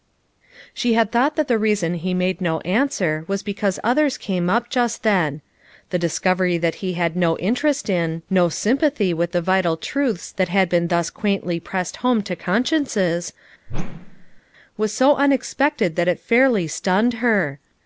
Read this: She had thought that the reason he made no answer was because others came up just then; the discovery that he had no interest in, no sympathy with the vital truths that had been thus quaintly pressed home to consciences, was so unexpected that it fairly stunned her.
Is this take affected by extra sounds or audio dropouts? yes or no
yes